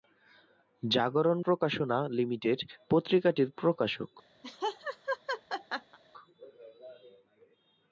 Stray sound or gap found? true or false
true